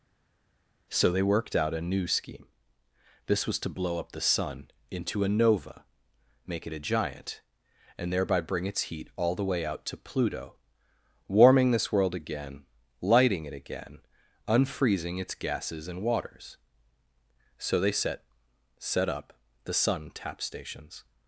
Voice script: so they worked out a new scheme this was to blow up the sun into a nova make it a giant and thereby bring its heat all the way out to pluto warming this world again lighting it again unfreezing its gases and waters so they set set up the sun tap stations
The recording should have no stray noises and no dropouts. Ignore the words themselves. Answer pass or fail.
pass